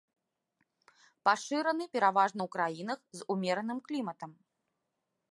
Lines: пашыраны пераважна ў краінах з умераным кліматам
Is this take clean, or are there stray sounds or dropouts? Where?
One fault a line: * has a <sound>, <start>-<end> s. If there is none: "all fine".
all fine